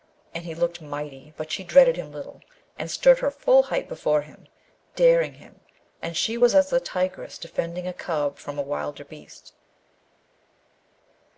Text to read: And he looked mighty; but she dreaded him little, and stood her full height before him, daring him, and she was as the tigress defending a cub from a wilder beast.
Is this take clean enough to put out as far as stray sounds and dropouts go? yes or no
yes